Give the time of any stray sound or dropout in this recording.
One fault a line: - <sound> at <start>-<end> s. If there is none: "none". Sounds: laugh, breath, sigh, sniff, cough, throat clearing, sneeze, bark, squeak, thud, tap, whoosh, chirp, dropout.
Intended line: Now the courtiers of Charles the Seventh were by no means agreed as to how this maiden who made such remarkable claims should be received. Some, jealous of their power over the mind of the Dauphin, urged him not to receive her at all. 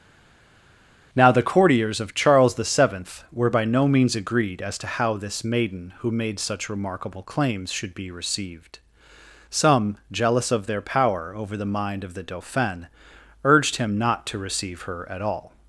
none